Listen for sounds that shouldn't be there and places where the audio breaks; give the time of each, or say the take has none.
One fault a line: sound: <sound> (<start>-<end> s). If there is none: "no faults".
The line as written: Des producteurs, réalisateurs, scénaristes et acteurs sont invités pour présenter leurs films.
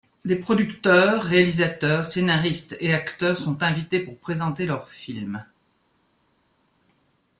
no faults